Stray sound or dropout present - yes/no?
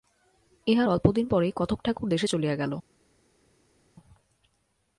no